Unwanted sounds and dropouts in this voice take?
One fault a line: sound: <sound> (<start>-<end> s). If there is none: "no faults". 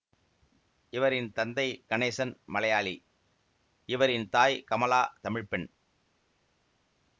no faults